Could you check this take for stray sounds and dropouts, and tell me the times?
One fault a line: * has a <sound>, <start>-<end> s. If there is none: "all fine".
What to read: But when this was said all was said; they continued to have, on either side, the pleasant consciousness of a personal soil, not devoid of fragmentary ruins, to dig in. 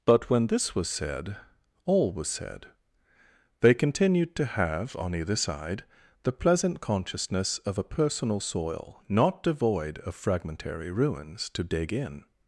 all fine